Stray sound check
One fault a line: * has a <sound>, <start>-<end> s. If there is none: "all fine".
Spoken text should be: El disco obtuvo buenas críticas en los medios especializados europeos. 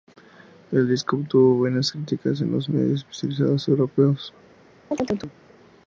* has a chirp, 4.9-5.3 s